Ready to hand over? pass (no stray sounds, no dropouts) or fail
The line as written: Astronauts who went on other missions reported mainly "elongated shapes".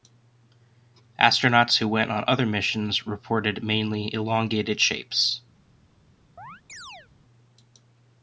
fail